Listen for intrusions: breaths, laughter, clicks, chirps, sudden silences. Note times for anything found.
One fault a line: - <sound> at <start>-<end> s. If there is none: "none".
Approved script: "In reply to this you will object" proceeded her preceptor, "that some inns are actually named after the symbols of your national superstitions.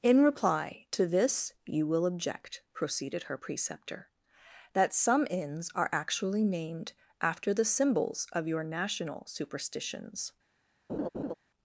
- laugh at 10.9-11.3 s